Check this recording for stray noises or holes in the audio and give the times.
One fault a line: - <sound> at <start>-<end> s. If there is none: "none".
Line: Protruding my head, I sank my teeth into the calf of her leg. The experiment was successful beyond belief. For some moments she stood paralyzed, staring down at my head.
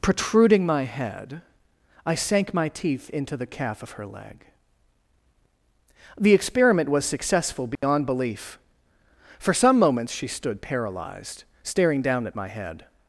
- dropout at 7.8-7.8 s